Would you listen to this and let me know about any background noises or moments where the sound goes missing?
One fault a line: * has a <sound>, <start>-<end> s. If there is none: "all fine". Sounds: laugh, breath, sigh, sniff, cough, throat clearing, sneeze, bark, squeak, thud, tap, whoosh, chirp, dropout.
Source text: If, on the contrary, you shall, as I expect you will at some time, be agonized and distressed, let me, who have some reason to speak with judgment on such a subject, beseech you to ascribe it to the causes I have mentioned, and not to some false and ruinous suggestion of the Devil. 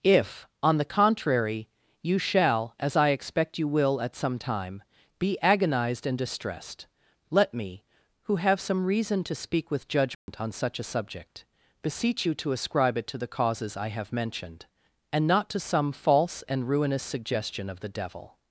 * has a dropout, 10.1-10.3 s